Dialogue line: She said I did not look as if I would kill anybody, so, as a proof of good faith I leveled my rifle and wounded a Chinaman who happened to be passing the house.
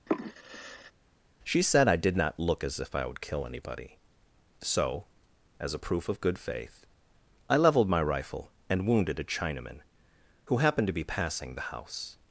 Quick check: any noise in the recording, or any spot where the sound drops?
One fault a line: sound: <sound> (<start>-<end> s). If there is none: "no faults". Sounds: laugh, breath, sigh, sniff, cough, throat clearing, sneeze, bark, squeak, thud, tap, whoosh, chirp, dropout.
sound: sigh (0.1-0.9 s)